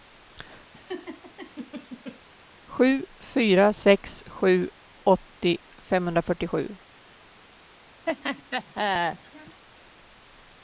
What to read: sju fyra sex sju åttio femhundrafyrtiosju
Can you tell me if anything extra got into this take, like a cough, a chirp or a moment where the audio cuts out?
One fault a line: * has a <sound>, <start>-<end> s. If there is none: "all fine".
* has a laugh, 0.7-2.2 s
* has a laugh, 8.1-9.6 s